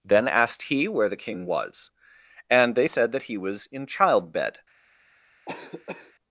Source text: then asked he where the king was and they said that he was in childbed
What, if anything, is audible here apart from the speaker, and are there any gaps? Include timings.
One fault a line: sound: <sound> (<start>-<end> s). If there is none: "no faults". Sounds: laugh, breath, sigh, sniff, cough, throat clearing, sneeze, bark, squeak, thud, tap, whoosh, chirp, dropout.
sound: cough (5.5-6.1 s)